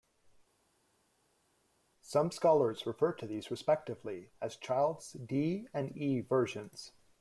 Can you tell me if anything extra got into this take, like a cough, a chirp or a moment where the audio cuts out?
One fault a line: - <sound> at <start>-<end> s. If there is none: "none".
none